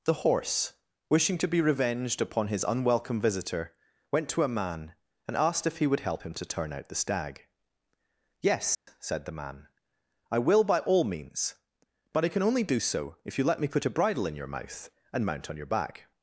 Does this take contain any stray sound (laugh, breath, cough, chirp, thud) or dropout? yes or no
yes